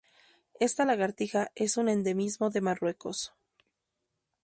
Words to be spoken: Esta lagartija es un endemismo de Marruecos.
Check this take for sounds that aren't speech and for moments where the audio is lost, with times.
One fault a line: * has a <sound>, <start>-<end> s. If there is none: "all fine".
all fine